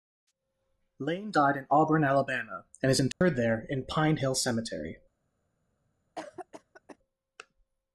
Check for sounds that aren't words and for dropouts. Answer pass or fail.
fail